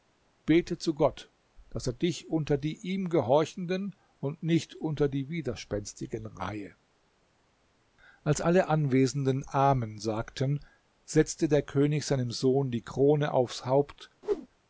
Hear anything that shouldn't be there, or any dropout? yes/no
yes